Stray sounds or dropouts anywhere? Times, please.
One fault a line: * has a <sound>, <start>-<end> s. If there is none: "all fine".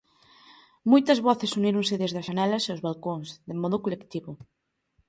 all fine